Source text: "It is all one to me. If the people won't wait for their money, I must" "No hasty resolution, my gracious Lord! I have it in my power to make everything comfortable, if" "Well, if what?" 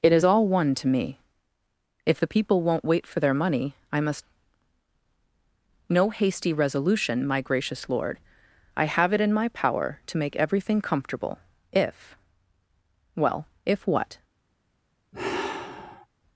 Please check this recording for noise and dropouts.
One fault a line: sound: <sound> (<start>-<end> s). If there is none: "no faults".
sound: sigh (15.1-16.1 s)